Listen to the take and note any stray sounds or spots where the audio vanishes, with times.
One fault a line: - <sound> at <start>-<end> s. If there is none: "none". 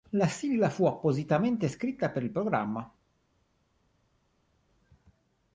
none